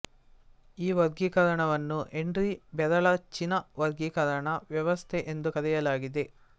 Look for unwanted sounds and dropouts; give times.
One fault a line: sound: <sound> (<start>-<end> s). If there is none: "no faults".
no faults